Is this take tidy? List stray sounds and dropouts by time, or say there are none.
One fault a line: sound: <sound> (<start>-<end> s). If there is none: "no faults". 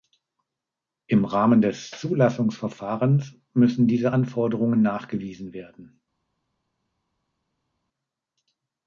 no faults